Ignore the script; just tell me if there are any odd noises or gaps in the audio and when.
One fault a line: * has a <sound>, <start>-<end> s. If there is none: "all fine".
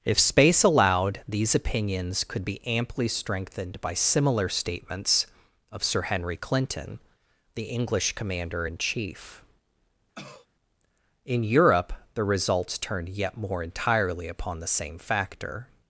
* has a cough, 10.1-10.5 s